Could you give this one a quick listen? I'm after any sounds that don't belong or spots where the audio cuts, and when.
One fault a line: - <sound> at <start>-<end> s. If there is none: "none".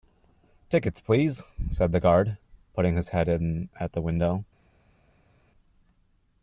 none